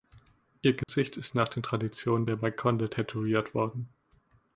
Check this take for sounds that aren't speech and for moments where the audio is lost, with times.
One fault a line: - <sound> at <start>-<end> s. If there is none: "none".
- dropout at 0.8-0.9 s